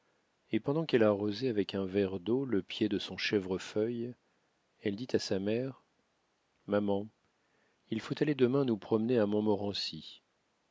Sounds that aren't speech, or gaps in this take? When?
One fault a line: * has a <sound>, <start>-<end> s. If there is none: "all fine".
all fine